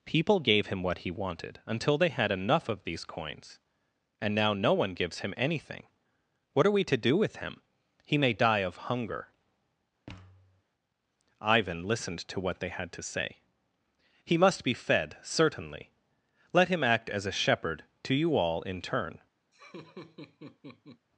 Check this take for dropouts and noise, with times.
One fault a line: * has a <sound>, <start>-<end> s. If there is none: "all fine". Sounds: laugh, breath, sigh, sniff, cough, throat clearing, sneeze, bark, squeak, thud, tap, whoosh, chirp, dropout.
* has a thud, 10.1-10.6 s
* has a laugh, 19.5-21.1 s